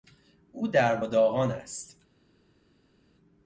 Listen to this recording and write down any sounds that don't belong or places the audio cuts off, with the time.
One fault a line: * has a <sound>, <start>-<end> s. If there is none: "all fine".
all fine